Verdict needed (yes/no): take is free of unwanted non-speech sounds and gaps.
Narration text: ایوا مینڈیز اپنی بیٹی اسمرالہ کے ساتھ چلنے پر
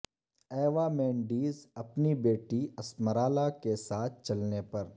yes